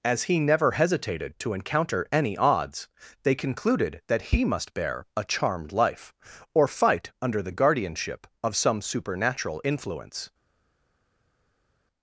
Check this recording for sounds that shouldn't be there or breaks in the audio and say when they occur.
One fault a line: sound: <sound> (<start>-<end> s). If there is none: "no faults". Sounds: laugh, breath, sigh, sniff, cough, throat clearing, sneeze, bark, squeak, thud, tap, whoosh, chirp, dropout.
no faults